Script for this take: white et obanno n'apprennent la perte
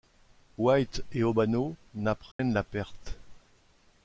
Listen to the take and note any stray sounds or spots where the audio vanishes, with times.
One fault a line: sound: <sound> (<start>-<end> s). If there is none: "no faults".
sound: dropout (2.3-2.4 s)